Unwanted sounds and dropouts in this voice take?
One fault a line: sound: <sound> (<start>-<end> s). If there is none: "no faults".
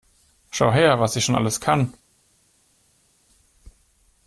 no faults